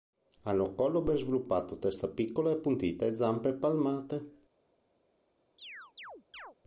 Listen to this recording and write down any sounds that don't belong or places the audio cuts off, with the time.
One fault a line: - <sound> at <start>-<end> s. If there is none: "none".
- chirp at 5.6-6.6 s